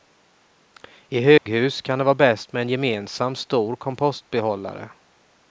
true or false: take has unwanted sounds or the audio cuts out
true